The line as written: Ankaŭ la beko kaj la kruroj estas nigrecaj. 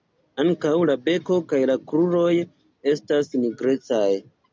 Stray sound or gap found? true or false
false